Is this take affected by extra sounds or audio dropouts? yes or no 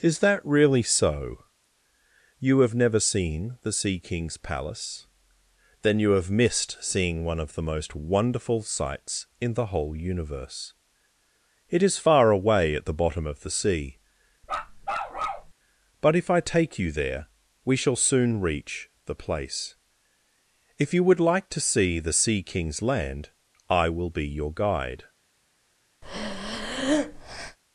yes